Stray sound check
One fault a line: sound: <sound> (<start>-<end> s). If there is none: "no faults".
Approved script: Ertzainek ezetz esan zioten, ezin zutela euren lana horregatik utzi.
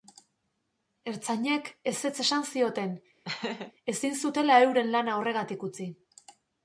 sound: laugh (3.2-3.7 s)